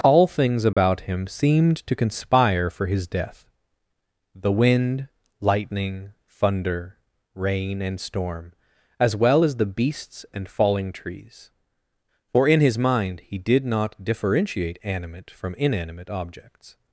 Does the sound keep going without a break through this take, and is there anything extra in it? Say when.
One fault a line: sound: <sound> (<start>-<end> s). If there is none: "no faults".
sound: dropout (0.7-0.8 s)